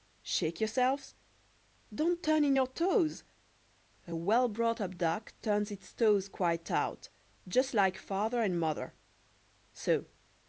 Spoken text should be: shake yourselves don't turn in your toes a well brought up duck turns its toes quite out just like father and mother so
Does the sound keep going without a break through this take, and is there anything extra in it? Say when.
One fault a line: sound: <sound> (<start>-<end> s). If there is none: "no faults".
no faults